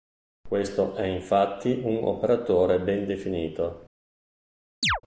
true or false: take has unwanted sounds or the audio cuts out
true